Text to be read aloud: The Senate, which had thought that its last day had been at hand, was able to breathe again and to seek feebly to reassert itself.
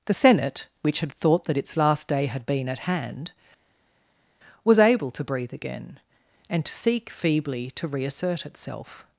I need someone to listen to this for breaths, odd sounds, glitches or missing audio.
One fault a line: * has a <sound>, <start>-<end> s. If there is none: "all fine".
all fine